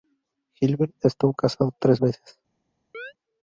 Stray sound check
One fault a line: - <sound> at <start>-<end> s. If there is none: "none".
- chirp at 2.9-3.1 s